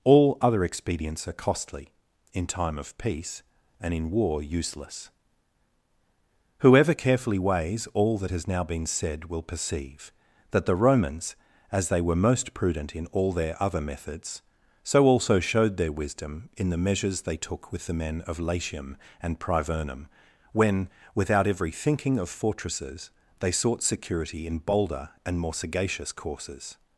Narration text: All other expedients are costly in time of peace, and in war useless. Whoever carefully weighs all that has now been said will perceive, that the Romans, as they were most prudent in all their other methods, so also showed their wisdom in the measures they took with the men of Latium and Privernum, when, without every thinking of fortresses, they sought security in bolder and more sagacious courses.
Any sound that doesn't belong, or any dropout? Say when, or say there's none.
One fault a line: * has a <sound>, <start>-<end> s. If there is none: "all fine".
all fine